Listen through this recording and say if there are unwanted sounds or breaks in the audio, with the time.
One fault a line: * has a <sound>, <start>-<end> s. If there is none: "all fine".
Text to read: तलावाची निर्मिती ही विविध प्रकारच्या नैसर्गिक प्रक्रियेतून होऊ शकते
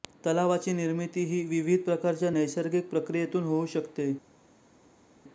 all fine